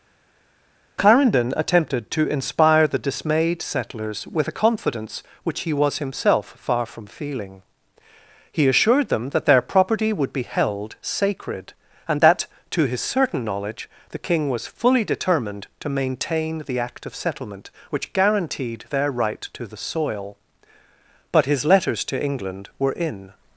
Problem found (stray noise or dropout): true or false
false